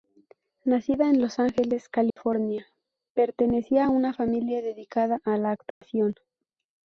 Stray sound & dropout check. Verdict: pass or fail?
fail